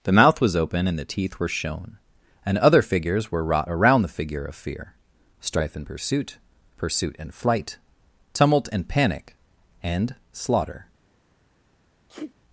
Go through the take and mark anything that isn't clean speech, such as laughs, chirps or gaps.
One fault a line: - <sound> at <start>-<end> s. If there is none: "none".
- sneeze at 12.1-12.3 s